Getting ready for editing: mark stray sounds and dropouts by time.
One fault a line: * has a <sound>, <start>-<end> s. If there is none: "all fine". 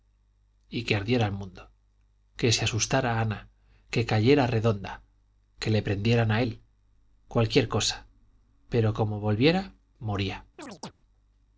* has a chirp, 10.6-10.9 s